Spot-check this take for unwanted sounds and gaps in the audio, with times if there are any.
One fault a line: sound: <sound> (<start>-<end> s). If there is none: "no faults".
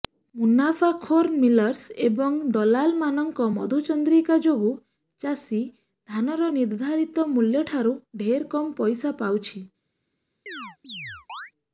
sound: chirp (10.5-11.5 s)